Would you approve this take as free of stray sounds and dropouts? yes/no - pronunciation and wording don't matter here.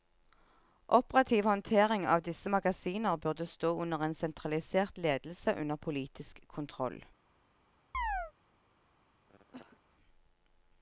no